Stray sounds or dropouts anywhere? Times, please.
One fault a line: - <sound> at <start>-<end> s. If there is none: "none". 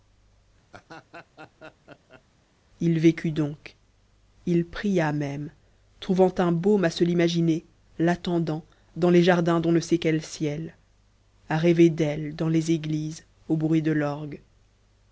- laugh at 0.7-2.2 s